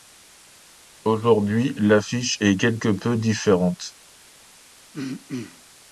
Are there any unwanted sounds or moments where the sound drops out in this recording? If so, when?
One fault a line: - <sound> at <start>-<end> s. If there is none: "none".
- throat clearing at 4.9-5.6 s